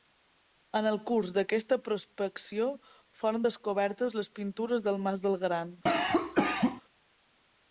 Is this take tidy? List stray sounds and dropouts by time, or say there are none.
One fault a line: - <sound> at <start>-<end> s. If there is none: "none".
- cough at 5.9-6.8 s